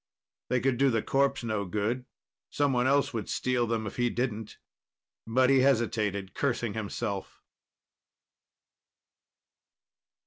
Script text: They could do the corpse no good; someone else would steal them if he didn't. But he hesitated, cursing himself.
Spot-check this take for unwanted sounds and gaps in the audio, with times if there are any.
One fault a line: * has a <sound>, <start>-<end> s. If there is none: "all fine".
all fine